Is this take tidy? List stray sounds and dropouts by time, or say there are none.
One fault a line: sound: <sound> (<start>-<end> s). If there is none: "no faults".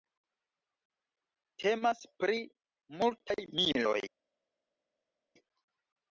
no faults